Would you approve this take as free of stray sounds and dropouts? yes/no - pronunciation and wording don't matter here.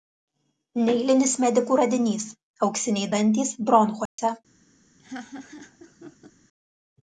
no